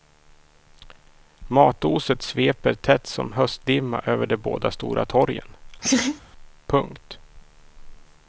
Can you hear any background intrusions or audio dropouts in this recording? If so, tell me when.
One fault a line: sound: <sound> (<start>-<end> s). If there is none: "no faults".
sound: laugh (5.8-6.2 s)